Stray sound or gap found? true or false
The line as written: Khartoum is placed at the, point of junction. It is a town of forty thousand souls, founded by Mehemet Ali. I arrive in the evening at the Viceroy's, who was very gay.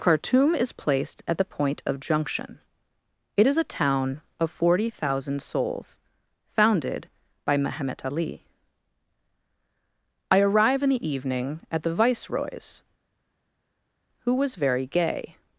false